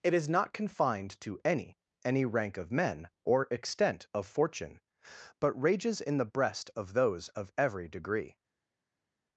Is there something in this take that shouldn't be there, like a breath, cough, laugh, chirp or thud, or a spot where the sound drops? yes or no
no